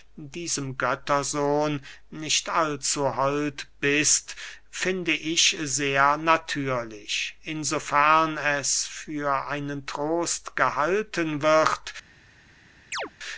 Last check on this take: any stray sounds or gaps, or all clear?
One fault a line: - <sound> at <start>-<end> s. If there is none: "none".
- chirp at 12.9-13.1 s